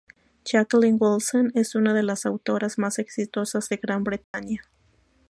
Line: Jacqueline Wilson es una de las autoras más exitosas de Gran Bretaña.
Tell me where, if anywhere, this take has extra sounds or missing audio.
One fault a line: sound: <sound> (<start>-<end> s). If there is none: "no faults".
sound: dropout (4.2-4.3 s)